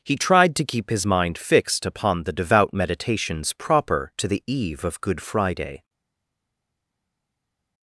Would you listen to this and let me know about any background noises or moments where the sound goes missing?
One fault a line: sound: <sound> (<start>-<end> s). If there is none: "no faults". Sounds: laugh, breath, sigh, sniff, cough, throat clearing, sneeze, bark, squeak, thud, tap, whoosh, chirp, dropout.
no faults